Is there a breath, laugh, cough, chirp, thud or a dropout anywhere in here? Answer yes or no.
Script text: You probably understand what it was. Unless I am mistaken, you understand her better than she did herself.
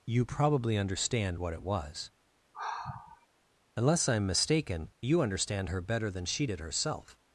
yes